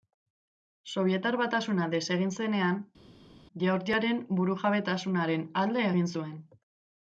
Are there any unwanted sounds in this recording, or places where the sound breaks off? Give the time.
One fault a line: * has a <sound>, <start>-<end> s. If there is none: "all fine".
all fine